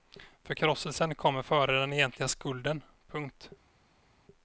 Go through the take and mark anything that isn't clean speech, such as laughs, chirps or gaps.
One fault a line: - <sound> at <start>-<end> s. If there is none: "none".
none